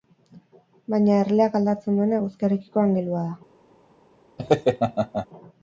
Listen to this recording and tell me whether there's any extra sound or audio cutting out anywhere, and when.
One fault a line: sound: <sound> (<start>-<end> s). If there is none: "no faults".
sound: laugh (4.4-5.3 s)